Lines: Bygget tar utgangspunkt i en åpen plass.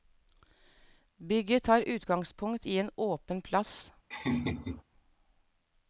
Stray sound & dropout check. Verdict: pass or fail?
fail